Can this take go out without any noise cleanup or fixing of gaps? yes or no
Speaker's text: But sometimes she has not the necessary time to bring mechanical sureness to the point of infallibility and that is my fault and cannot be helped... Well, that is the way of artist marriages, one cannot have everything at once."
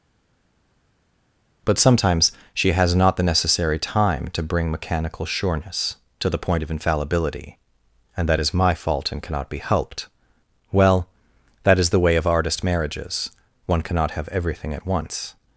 yes